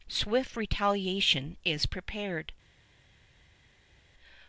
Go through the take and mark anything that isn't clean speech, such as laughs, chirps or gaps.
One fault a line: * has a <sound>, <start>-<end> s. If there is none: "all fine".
all fine